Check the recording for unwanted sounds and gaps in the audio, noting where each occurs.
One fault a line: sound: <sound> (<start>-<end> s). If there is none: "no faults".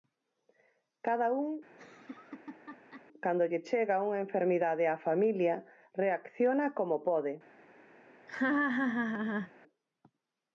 sound: laugh (1.7-3.1 s)
sound: laugh (8.3-9.5 s)